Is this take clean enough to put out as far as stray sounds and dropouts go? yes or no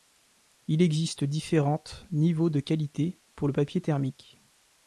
yes